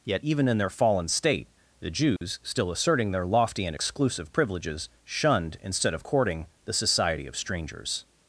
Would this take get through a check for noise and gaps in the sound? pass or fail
fail